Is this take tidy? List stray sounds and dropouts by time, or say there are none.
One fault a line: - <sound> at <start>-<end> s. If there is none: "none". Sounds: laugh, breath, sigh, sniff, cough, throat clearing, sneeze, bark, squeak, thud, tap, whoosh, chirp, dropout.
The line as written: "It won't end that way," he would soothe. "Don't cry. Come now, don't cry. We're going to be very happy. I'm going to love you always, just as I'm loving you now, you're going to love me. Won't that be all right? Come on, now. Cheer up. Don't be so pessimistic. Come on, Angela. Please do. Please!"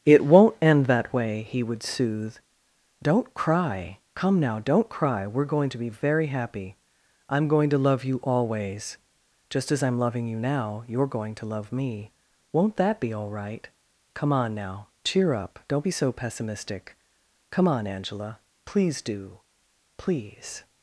none